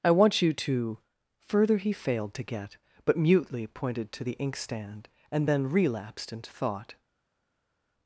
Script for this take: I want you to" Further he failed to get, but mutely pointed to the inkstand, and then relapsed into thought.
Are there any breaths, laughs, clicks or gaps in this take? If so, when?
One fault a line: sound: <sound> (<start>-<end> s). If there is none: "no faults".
no faults